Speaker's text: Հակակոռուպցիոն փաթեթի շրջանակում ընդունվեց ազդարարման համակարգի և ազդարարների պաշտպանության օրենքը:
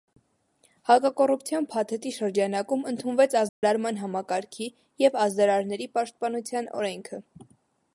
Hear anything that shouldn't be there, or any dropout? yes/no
yes